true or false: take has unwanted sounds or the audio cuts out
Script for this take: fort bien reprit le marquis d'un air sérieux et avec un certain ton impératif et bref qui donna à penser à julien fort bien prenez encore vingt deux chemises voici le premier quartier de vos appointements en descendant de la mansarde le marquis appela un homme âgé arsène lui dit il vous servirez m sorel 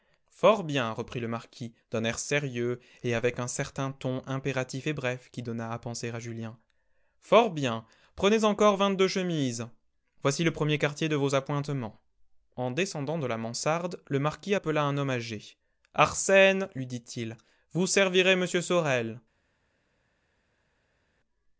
false